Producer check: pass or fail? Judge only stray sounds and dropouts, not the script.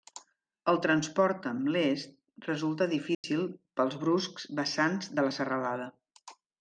fail